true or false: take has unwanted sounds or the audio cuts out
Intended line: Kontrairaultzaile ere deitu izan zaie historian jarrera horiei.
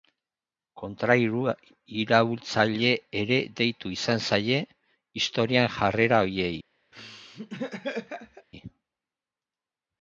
true